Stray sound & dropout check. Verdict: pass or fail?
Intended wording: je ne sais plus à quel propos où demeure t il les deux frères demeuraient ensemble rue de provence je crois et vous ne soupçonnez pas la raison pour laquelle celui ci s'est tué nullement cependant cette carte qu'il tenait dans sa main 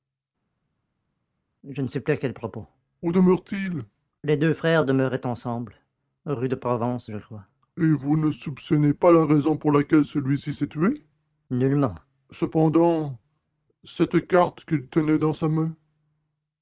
pass